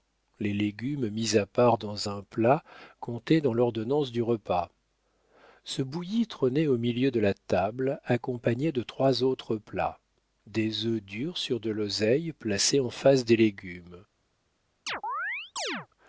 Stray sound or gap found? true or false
true